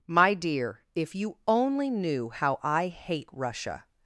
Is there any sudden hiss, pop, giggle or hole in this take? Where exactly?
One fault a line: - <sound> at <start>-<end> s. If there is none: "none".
none